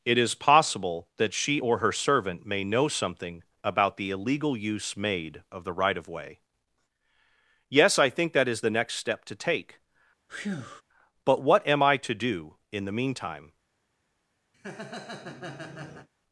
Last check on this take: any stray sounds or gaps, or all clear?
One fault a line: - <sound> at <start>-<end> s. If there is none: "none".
- breath at 10.3-10.8 s
- laugh at 14.5-16.1 s